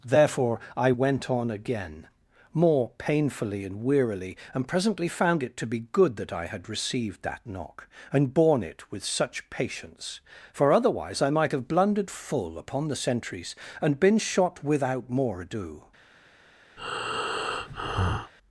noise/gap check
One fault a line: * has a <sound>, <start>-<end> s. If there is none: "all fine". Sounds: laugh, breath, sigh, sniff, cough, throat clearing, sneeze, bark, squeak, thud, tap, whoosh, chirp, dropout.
* has a breath, 16.8-18.3 s